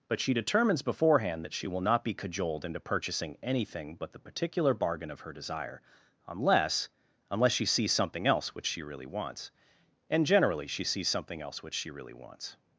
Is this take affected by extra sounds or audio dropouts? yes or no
no